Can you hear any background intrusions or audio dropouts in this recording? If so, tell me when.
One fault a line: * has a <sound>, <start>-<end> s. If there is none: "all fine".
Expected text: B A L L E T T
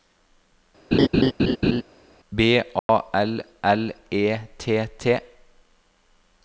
* has a laugh, 0.9-1.8 s
* has a dropout, 2.8-2.9 s